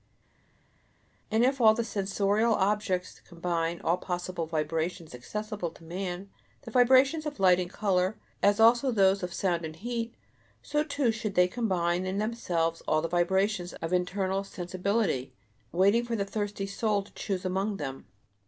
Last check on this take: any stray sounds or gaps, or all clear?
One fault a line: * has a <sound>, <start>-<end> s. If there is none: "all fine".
all fine